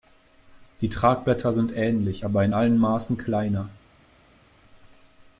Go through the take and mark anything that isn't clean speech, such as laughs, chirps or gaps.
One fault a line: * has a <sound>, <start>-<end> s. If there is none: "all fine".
all fine